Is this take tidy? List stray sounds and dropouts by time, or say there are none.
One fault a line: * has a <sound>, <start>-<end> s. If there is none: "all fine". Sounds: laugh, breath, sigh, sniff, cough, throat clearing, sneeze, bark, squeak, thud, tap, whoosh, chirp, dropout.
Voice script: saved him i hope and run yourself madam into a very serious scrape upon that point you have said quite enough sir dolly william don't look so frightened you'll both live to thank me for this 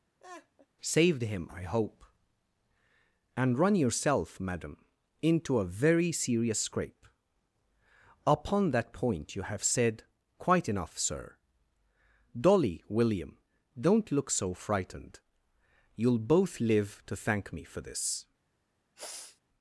* has a laugh, 0.2-0.7 s
* has a sniff, 19.0-19.4 s